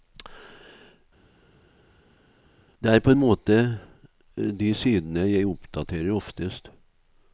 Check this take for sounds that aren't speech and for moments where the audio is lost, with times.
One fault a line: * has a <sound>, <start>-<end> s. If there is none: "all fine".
all fine